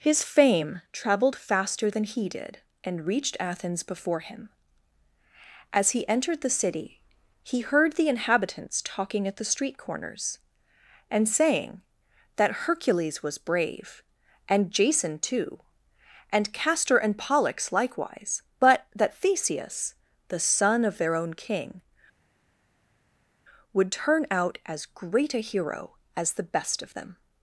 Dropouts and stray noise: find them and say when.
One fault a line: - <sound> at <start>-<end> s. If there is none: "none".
none